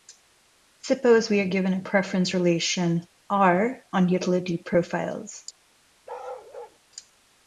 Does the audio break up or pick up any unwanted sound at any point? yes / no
yes